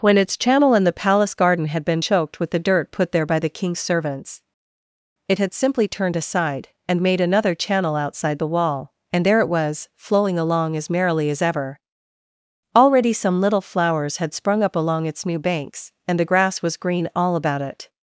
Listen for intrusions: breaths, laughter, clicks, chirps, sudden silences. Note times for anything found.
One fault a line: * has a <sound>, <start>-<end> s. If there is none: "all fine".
all fine